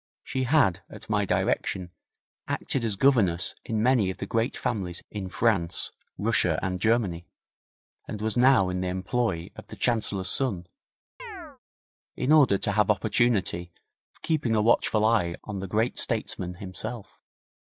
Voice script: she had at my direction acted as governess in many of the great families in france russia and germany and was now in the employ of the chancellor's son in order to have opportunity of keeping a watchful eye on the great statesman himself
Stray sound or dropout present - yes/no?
yes